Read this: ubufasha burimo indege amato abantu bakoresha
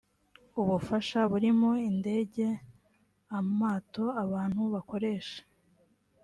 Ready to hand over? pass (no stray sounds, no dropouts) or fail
pass